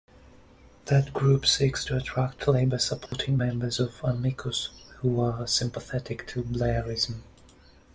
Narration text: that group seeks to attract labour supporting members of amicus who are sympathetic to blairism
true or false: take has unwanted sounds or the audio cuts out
true